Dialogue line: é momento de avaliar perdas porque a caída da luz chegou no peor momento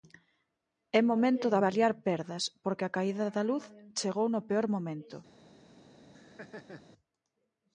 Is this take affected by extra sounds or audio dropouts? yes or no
yes